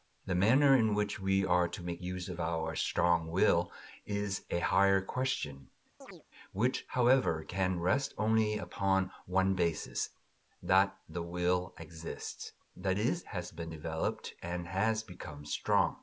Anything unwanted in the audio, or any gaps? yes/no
yes